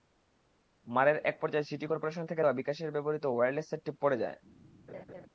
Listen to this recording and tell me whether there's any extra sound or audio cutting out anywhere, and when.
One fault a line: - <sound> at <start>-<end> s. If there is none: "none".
- laugh at 4.9-5.3 s